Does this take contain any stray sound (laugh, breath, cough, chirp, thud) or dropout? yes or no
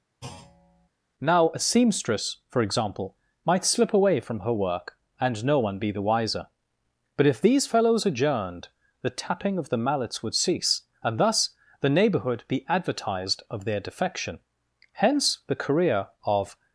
yes